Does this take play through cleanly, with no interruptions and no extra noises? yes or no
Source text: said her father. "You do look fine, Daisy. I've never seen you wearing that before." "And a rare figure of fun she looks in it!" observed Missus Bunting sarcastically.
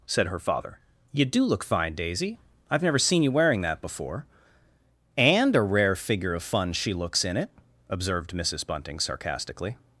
yes